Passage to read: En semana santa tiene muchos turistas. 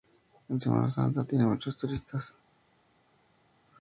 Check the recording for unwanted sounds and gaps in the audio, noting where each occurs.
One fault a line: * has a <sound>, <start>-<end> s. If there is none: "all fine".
all fine